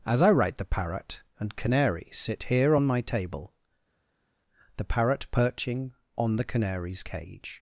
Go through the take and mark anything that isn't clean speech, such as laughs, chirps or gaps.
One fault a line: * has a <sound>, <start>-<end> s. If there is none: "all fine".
all fine